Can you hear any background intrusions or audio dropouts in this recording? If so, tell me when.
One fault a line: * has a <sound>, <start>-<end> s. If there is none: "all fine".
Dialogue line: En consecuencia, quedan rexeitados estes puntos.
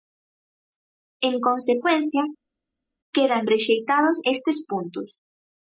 all fine